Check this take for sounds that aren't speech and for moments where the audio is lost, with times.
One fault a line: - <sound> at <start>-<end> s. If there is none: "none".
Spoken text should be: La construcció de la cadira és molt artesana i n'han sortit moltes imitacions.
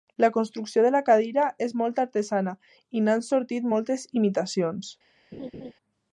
- laugh at 5.3-5.7 s